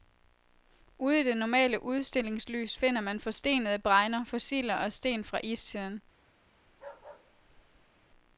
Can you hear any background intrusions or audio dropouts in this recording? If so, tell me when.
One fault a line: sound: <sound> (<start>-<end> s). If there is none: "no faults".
sound: bark (6.7-8.1 s)